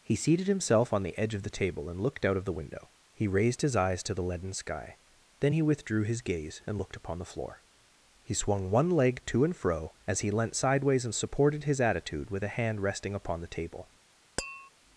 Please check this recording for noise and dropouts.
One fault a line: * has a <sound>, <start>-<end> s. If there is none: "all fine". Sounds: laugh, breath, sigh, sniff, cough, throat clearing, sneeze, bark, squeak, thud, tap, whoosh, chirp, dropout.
* has a tap, 14.4-14.7 s